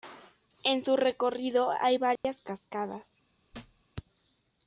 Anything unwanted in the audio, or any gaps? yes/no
yes